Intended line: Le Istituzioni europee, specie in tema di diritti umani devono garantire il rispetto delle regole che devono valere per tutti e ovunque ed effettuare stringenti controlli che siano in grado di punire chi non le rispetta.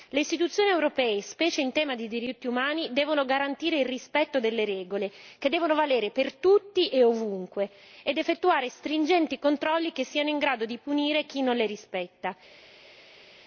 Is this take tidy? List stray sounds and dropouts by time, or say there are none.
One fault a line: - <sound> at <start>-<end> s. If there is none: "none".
none